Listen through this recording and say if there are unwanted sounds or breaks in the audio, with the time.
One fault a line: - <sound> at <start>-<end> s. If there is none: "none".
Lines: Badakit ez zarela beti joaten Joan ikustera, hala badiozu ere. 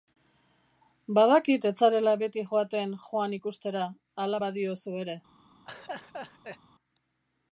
- laugh at 5.7-6.6 s